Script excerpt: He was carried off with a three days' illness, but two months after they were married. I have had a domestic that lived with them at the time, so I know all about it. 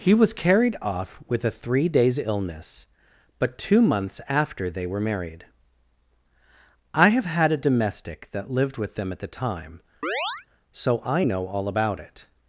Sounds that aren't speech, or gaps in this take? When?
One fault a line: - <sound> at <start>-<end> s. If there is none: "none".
- chirp at 10.0-10.5 s